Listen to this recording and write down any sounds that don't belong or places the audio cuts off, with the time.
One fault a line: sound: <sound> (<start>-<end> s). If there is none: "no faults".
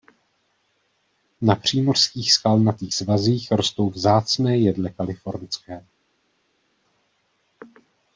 no faults